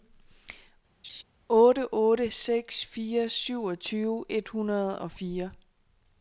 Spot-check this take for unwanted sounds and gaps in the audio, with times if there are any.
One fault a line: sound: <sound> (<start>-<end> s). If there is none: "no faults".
sound: laugh (1.0-1.2 s)